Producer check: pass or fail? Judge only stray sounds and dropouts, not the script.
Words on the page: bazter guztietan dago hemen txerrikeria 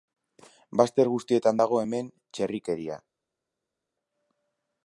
pass